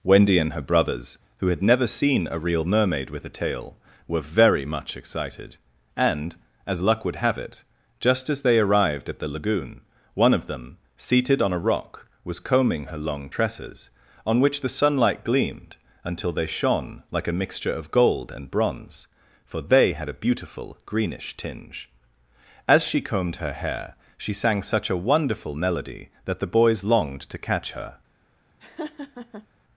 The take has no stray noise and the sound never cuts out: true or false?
false